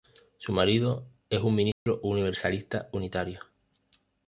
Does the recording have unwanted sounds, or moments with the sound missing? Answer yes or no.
yes